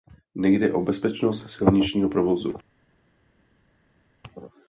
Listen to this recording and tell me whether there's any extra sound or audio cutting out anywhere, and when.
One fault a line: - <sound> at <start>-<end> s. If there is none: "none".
none